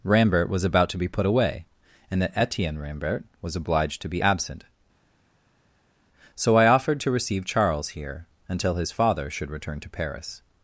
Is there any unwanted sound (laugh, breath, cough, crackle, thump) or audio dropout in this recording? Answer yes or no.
no